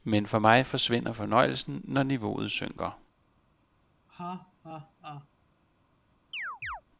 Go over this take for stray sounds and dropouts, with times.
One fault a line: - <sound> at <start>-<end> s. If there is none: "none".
- laugh at 4.1-5.3 s
- chirp at 6.3-6.8 s